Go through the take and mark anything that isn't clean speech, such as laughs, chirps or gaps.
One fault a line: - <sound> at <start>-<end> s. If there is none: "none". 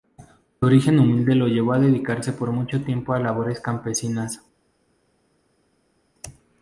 none